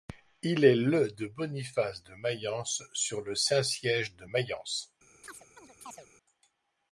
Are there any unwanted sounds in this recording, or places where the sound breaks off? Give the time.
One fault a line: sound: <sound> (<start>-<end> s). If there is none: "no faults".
sound: chirp (5.2-6.1 s)